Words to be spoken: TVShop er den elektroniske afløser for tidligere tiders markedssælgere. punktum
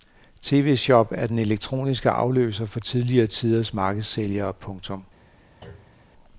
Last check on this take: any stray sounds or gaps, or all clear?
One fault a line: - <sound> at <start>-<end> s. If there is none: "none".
- thud at 5.6-6.1 s